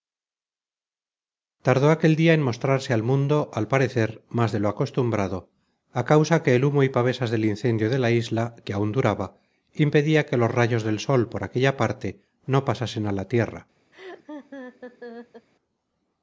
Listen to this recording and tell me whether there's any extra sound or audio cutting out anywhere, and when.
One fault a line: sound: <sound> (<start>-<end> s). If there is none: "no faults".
sound: laugh (13.9-15.5 s)